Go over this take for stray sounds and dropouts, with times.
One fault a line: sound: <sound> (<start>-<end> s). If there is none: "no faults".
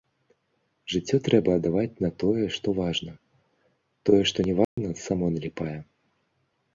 sound: dropout (4.6-4.8 s)